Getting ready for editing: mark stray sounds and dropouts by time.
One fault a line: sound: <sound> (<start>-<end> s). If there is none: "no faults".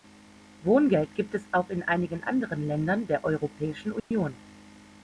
sound: dropout (4.0-4.1 s)